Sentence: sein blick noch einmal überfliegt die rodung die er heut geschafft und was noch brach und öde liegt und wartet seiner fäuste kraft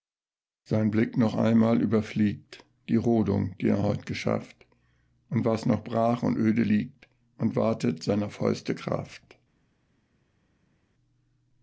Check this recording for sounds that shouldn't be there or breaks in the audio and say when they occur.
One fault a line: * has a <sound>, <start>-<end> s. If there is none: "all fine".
all fine